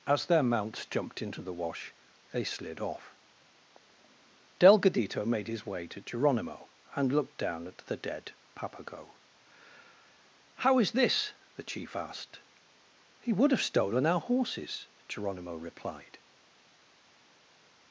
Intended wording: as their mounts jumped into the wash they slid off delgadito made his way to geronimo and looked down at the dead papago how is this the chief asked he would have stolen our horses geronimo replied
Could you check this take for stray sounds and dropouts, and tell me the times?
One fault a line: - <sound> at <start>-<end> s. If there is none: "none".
none